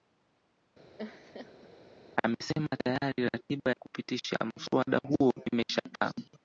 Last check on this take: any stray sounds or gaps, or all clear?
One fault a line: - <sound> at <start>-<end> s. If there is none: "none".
- laugh at 1.0-1.7 s